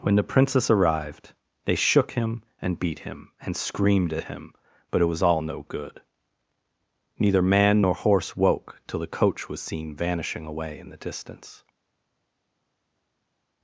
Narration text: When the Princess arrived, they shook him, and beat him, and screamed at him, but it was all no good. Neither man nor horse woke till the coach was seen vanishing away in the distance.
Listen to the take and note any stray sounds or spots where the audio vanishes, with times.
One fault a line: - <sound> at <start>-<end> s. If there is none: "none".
none